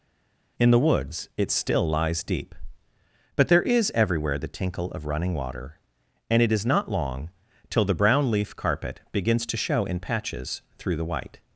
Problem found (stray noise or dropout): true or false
false